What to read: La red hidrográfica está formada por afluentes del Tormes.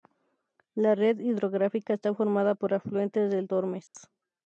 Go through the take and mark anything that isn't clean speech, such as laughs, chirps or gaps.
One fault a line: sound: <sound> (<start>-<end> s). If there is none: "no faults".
sound: dropout (3.9-3.9 s)